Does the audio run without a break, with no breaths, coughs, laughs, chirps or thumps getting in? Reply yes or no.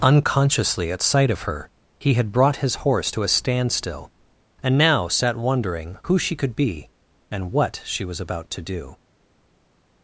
yes